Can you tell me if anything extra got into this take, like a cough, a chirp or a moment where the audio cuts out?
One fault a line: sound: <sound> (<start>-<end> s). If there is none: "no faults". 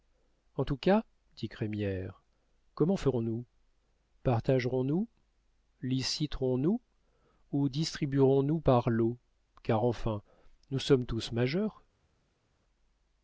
no faults